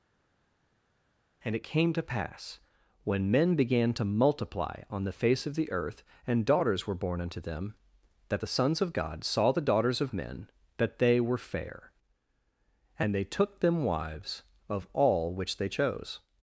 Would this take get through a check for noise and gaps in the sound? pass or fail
pass